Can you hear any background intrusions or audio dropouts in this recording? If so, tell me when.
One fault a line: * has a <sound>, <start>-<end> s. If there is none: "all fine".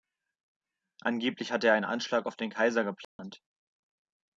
* has a dropout, 3.0-3.2 s